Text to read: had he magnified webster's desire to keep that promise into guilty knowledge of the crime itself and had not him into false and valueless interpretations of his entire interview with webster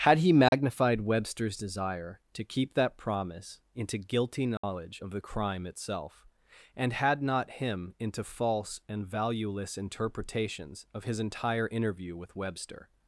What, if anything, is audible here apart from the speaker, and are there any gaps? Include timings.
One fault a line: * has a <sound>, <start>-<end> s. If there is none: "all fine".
* has a dropout, 0.5-0.5 s
* has a dropout, 4.6-4.6 s